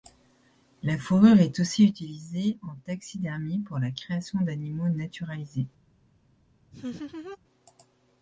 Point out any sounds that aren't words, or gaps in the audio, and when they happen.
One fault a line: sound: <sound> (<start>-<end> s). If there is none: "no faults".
sound: laugh (6.7-7.4 s)